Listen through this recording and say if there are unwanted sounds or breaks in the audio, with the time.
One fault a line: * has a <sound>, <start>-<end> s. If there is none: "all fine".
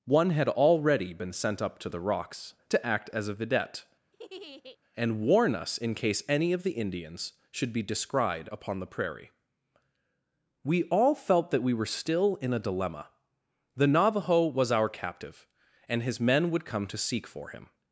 * has a laugh, 4.1-4.8 s